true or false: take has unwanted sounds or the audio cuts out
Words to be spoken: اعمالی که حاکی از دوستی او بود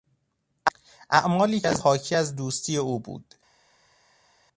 false